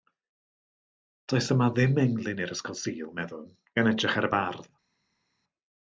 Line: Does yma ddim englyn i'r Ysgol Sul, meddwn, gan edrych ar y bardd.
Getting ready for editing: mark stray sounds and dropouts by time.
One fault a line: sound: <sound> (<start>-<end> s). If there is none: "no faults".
no faults